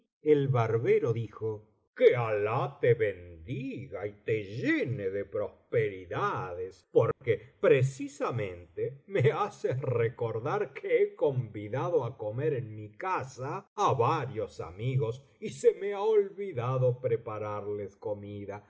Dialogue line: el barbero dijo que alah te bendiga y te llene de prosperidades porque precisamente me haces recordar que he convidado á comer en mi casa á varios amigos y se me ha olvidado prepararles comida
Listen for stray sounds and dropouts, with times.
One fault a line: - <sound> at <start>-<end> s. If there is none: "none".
- dropout at 7.1-7.2 s